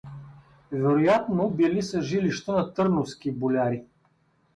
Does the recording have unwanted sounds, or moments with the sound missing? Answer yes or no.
no